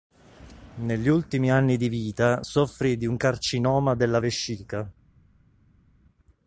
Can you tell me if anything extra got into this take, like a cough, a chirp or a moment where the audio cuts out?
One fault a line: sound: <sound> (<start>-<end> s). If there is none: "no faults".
no faults